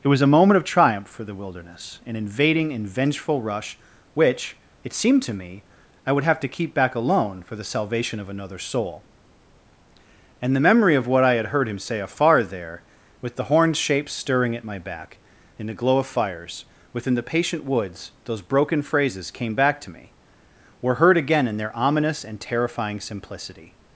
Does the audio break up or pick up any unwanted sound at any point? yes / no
no